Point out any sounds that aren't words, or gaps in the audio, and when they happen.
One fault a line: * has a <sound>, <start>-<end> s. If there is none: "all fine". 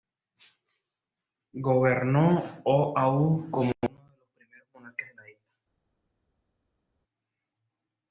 all fine